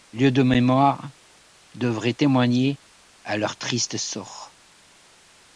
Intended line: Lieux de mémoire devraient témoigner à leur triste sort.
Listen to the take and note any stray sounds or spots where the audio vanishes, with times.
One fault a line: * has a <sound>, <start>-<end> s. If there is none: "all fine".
all fine